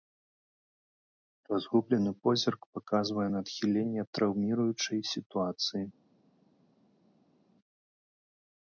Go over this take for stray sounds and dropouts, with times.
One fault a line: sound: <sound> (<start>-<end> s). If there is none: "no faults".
no faults